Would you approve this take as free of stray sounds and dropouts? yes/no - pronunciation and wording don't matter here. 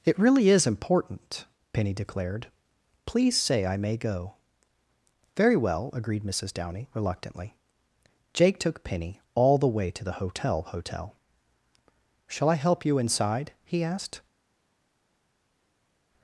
yes